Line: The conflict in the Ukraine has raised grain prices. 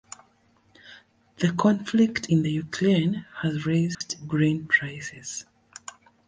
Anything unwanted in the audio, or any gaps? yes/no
yes